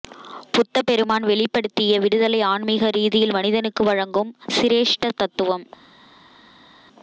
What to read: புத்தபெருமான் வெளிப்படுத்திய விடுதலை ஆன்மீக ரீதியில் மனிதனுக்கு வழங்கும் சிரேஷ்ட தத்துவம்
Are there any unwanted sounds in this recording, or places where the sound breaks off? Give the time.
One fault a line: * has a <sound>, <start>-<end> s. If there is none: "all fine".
all fine